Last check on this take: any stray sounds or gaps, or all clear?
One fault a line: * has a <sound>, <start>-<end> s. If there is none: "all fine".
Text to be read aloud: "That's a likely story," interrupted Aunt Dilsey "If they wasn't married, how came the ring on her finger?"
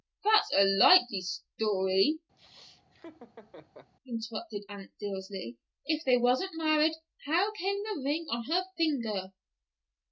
* has a laugh, 2.4-3.9 s